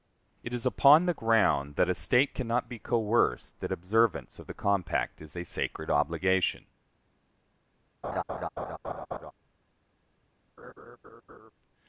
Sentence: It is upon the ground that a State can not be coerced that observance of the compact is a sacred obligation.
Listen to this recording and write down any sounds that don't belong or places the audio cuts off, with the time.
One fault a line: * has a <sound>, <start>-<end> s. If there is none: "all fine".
* has a laugh, 8.0-9.3 s
* has a laugh, 10.6-11.5 s